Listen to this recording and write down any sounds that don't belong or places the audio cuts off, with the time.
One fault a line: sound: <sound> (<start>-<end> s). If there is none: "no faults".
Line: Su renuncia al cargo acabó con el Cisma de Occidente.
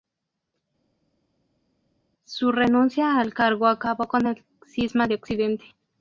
no faults